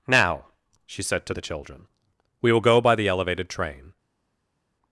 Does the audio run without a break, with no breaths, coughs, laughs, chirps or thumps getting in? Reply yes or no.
yes